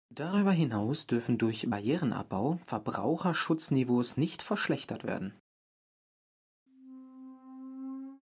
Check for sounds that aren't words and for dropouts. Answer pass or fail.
fail